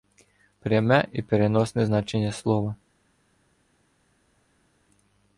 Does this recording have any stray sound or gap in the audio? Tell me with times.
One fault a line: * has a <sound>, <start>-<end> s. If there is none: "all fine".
all fine